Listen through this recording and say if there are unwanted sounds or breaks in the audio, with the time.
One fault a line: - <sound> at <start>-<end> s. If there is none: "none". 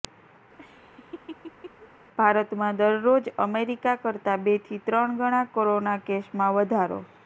- laugh at 0.6-1.9 s